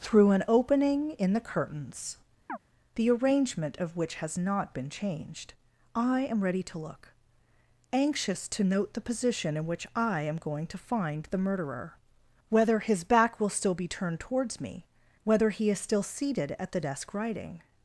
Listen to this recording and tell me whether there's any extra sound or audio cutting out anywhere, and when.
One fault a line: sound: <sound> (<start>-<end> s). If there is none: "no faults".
sound: chirp (2.5-2.6 s)